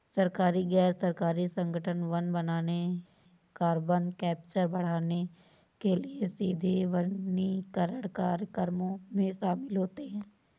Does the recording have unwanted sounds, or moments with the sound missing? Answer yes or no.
no